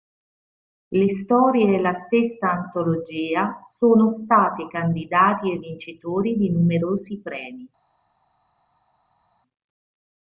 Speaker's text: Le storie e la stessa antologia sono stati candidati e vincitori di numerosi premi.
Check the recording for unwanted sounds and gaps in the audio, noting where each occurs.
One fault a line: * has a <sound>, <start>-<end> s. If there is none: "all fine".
all fine